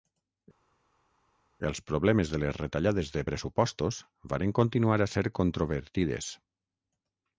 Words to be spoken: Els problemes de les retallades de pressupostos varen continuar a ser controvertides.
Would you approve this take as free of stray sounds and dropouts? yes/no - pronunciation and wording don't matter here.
yes